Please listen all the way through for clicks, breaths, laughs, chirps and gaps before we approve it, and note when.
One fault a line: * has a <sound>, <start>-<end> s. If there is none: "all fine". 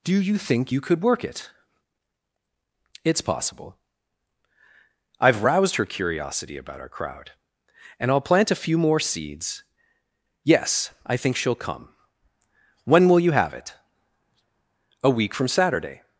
all fine